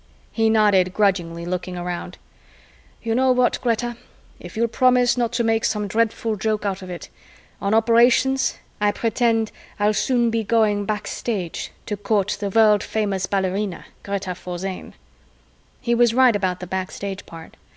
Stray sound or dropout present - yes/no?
no